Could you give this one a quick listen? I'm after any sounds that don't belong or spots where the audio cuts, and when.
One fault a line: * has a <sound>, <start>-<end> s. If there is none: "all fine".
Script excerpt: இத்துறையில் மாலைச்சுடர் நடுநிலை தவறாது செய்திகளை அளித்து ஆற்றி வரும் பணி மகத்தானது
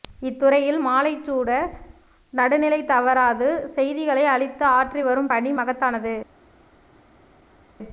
all fine